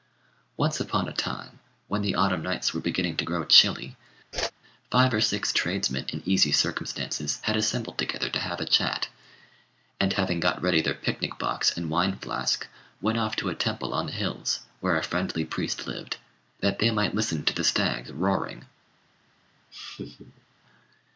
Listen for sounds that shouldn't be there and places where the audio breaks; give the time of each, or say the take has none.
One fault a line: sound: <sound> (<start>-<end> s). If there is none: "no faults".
sound: whoosh (4.3-4.5 s)
sound: laugh (19.7-20.5 s)